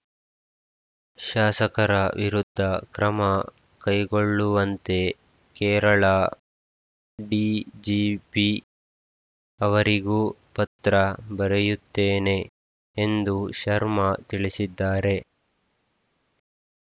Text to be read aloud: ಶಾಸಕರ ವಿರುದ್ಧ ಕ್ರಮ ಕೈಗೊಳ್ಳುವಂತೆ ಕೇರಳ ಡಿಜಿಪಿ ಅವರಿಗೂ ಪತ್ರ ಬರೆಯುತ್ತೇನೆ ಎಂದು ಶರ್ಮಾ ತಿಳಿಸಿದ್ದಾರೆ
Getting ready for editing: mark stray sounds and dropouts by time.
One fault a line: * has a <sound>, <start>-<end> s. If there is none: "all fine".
all fine